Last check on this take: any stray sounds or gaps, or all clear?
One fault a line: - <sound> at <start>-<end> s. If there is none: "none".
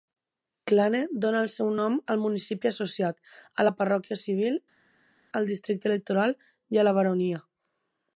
none